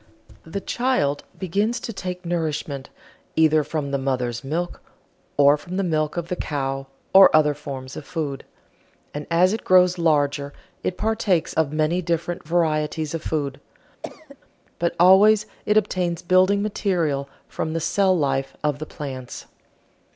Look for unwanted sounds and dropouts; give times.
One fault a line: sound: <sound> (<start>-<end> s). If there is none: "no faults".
sound: cough (14.0-14.4 s)